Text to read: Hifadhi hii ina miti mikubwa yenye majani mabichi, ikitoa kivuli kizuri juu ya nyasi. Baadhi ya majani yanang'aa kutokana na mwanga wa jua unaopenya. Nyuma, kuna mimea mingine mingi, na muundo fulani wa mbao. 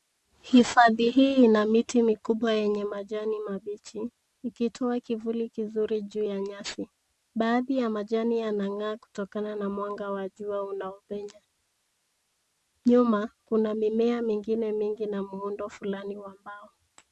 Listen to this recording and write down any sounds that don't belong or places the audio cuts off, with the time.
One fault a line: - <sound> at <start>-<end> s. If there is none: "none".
none